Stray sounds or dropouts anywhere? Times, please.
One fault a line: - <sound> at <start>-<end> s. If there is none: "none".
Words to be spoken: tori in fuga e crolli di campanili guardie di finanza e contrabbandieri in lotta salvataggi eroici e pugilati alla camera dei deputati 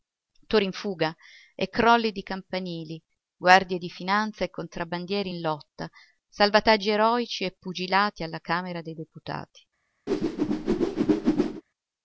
- whoosh at 10.1-11.6 s